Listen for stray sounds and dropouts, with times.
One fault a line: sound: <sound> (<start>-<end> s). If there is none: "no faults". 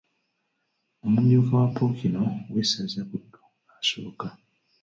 no faults